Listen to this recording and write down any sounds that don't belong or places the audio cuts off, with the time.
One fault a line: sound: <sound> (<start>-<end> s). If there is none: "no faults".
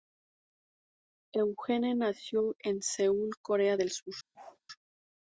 sound: bark (4.3-4.6 s)